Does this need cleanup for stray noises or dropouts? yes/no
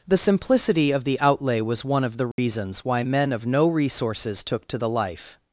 yes